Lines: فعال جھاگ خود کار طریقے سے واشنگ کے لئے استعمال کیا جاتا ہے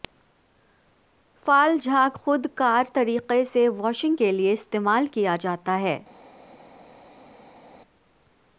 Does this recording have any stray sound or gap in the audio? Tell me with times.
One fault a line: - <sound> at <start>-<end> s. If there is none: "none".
none